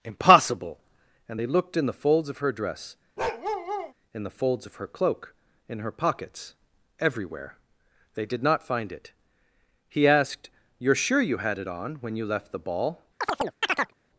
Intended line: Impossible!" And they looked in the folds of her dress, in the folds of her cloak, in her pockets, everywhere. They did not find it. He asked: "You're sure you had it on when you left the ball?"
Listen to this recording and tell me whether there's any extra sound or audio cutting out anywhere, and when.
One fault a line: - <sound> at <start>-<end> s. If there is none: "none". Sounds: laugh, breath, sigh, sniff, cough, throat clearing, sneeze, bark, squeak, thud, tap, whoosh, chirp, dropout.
- bark at 3.2-3.9 s
- chirp at 13.2-13.9 s